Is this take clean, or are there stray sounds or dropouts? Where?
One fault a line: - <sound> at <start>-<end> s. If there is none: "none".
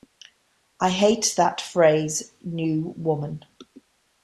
none